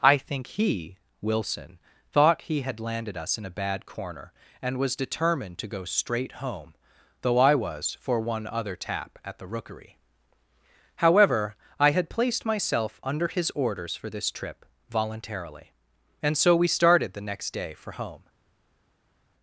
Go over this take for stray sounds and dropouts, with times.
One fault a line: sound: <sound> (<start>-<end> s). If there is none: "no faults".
no faults